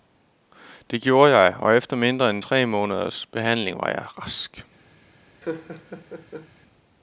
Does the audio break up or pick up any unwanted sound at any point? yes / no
yes